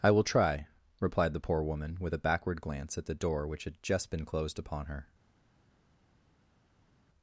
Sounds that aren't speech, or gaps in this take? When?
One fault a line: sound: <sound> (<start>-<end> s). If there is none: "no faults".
no faults